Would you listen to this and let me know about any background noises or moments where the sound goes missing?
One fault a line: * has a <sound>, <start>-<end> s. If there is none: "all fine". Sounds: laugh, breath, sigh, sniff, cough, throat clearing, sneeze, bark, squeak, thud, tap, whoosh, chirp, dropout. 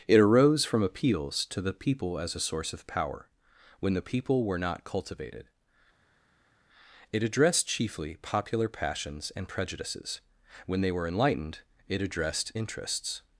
all fine